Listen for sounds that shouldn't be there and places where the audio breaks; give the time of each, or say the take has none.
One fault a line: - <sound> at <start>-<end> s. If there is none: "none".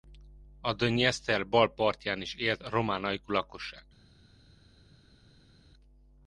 none